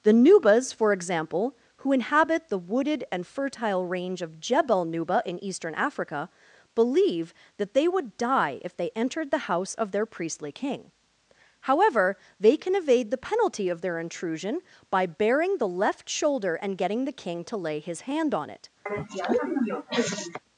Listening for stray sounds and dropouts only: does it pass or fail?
fail